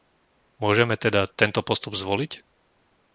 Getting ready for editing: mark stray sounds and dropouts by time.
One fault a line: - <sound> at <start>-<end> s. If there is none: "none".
none